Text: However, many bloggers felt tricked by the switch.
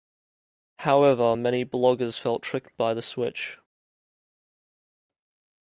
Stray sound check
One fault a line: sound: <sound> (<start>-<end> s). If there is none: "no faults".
no faults